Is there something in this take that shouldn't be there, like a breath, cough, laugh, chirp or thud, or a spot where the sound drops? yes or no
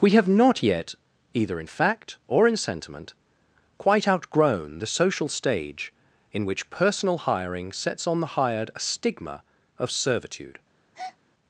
yes